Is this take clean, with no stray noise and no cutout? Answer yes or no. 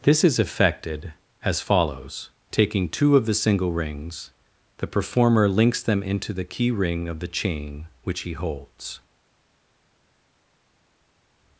yes